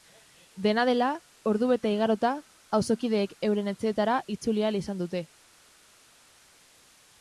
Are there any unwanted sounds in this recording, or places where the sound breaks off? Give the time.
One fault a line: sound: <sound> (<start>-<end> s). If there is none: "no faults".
no faults